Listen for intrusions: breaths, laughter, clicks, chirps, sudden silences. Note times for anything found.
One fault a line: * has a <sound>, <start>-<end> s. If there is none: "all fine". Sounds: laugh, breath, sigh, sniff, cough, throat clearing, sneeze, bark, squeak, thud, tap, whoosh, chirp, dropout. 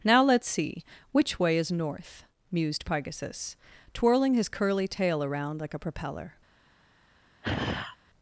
* has a sigh, 7.4-8.0 s